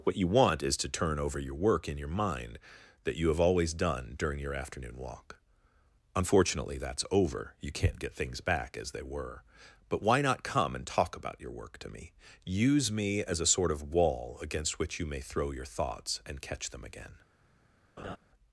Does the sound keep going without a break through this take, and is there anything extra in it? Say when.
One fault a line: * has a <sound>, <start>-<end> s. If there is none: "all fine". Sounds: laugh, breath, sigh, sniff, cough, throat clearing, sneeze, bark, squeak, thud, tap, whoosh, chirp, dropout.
* has a laugh, 18.0-18.2 s